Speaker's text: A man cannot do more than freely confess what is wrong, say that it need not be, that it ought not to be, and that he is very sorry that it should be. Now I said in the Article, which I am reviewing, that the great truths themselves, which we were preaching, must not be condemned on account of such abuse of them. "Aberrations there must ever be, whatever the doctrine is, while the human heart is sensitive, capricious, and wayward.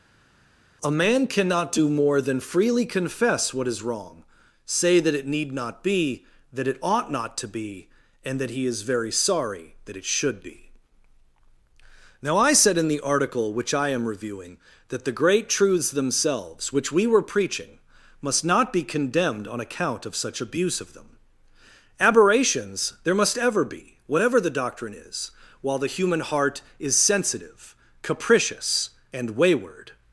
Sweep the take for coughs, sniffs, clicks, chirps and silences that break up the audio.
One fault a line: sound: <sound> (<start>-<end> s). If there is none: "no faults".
no faults